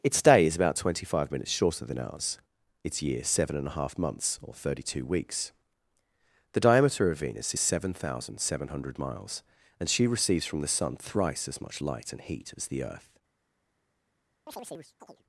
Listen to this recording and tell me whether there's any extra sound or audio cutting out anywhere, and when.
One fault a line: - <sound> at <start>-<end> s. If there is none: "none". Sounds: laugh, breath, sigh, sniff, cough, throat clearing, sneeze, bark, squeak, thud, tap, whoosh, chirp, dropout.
- chirp at 14.5-15.2 s